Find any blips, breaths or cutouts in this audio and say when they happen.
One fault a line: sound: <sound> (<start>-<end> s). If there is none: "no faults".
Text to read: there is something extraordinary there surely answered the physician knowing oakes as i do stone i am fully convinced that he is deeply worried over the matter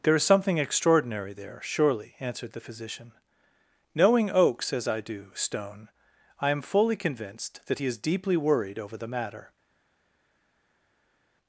no faults